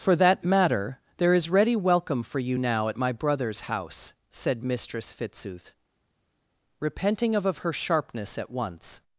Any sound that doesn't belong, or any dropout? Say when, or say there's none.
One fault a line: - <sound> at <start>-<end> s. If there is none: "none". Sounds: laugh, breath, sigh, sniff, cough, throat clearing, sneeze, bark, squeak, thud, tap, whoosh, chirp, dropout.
none